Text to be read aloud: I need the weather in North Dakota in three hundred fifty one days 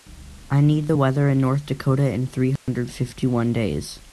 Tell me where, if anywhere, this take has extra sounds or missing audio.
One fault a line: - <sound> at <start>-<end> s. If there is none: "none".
- dropout at 2.6-2.7 s